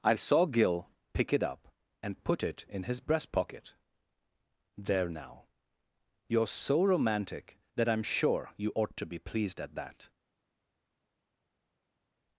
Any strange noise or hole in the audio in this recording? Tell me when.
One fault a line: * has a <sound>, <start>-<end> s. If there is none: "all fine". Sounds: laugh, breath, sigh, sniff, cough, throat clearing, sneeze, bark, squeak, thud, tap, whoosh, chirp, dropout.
all fine